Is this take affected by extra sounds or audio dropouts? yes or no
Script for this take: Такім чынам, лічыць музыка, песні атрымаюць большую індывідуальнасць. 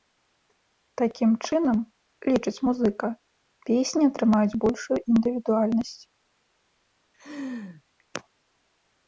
yes